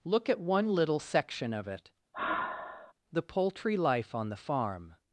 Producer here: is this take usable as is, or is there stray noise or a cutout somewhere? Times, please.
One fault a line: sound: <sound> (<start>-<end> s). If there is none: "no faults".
sound: sigh (2.1-2.9 s)